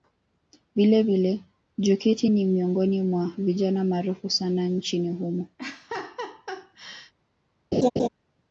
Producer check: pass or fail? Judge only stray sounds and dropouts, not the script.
fail